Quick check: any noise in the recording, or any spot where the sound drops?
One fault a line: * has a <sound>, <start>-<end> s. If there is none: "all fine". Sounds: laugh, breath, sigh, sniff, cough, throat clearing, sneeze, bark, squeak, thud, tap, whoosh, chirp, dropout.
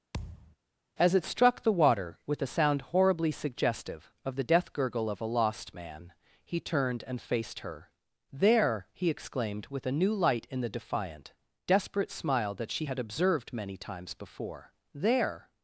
* has a thud, 0.1-0.6 s